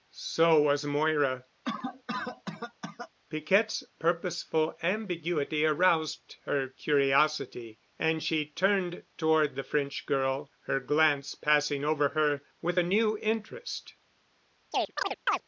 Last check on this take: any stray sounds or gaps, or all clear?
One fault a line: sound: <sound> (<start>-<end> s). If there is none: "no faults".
sound: cough (1.6-3.1 s)
sound: chirp (14.7-15.4 s)